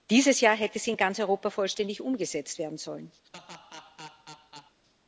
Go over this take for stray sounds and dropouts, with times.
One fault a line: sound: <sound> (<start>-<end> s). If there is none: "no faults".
sound: laugh (3.2-4.8 s)